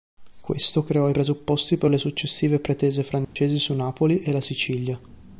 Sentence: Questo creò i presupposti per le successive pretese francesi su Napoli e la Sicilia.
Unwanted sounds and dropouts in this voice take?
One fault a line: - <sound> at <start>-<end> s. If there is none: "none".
- dropout at 3.2-3.4 s